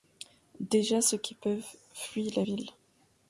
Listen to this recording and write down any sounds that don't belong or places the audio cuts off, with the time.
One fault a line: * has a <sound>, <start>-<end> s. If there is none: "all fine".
all fine